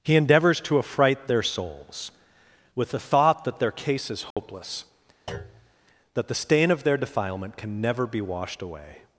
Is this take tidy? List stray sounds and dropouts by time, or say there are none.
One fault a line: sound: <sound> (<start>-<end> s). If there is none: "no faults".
sound: dropout (4.3-4.4 s)
sound: thud (5.3-5.7 s)